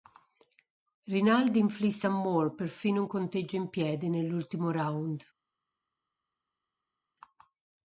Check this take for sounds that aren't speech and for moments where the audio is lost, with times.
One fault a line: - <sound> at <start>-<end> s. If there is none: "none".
none